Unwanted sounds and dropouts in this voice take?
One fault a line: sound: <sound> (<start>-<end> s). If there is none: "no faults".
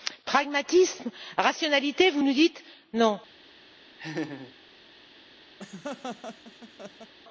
sound: laugh (4.0-4.5 s)
sound: laugh (5.6-7.1 s)